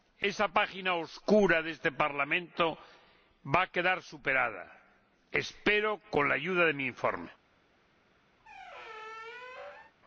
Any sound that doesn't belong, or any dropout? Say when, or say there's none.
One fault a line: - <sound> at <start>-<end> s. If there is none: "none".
- squeak at 8.4-9.9 s